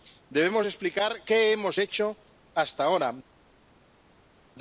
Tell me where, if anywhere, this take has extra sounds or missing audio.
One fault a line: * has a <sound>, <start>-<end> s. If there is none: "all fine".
all fine